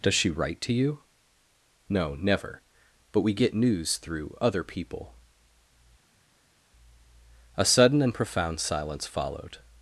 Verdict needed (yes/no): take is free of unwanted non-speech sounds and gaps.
yes